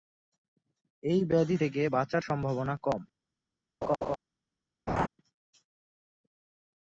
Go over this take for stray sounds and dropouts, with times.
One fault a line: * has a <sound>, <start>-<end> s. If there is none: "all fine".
* has a laugh, 3.8-4.2 s
* has a laugh, 4.9-5.1 s